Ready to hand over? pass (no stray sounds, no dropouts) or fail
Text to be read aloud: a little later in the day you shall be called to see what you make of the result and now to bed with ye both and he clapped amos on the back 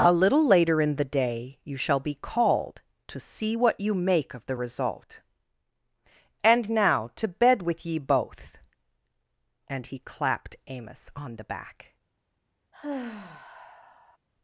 fail